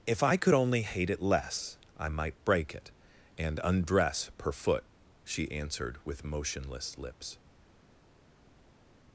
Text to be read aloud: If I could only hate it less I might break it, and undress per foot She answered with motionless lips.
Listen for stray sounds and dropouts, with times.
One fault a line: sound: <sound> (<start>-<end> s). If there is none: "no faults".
no faults